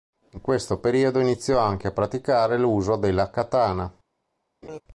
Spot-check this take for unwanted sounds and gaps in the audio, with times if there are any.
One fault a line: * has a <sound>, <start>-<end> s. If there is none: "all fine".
* has a laugh, 4.6-4.8 s